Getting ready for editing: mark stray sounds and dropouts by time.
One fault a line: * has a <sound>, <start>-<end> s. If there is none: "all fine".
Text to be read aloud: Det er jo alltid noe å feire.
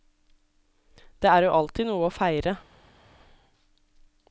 all fine